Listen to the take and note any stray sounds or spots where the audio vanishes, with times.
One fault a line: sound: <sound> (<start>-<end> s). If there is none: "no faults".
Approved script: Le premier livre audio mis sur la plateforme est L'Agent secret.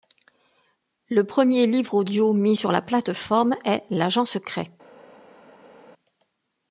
no faults